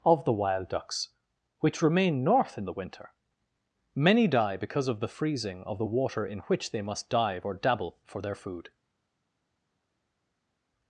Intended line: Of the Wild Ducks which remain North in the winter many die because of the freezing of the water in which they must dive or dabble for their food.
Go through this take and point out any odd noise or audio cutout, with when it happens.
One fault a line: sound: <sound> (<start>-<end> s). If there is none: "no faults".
no faults